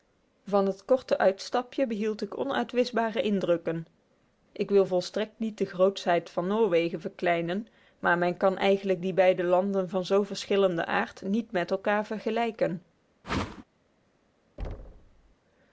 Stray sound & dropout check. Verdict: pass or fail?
fail